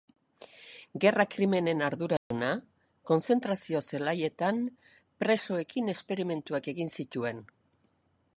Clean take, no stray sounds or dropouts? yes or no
no